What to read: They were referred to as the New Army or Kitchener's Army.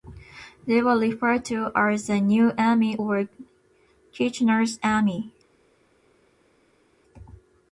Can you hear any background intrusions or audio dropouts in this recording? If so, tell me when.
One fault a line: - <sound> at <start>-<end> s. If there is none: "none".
none